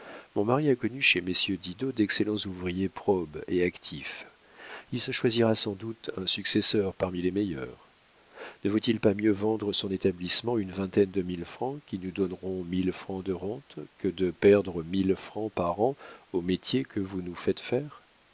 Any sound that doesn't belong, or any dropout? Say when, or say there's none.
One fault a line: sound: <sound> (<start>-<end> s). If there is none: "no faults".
no faults